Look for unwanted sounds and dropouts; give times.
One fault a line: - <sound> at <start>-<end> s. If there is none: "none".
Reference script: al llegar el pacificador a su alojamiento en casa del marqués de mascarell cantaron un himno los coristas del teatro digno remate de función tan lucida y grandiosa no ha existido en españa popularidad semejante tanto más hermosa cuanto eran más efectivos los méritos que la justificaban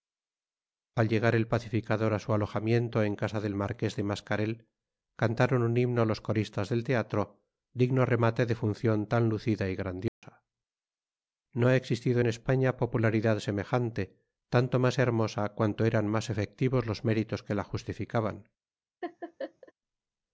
- dropout at 10.1-10.2 s
- laugh at 19.0-19.7 s